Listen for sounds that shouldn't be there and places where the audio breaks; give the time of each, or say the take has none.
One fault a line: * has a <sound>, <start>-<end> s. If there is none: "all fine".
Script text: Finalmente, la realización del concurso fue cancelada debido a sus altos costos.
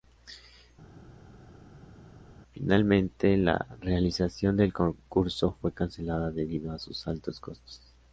all fine